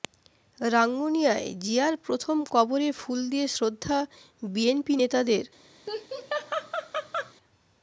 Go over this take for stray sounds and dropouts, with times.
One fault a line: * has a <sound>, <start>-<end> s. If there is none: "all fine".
* has a laugh, 5.9-7.3 s